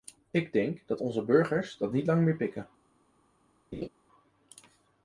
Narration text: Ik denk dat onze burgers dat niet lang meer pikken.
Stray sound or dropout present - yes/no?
yes